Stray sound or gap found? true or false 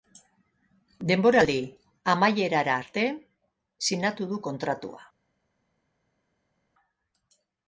false